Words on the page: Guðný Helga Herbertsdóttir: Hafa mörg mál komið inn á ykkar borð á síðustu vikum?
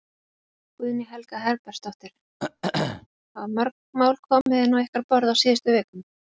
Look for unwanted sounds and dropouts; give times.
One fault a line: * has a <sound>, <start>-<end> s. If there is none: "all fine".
* has a throat clearing, 2.4-3.1 s
* has a dropout, 4.4-4.5 s